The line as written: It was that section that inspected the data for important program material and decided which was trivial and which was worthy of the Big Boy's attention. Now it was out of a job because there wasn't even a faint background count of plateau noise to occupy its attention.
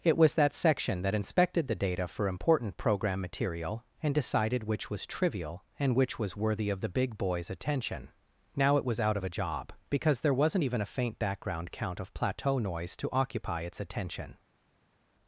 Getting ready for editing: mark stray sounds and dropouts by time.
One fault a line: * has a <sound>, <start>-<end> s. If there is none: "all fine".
all fine